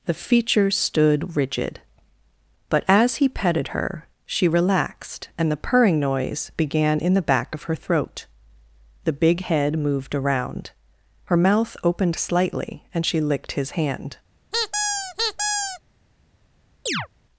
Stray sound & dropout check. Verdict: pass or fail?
fail